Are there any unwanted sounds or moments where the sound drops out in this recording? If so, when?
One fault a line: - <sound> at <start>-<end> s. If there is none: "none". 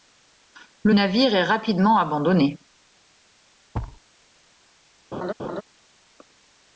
- thud at 3.7-4.0 s
- laugh at 5.1-5.6 s